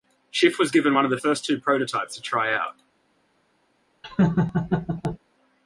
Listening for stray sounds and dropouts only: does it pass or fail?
fail